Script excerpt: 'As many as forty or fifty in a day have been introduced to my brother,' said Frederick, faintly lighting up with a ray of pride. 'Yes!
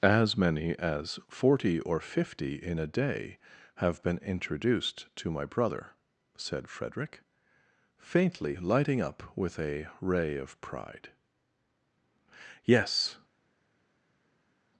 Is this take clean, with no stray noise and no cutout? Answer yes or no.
yes